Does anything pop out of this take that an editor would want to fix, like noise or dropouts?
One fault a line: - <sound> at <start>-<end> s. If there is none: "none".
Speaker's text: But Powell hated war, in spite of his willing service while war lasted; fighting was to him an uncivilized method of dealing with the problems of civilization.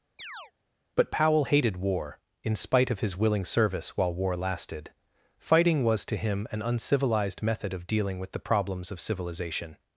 - chirp at 0.2-0.5 s